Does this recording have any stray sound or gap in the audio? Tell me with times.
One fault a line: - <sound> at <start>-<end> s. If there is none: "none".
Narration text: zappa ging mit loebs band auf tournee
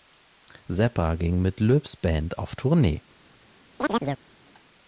- chirp at 3.8-4.2 s